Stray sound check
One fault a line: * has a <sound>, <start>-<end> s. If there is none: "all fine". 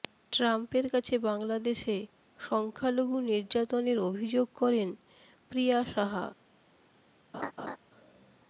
* has a laugh, 7.3-7.8 s